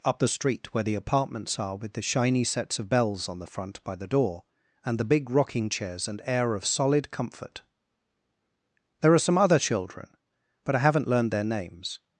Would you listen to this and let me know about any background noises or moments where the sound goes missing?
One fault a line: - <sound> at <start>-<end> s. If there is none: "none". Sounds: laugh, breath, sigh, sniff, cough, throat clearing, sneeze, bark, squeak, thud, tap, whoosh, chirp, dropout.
none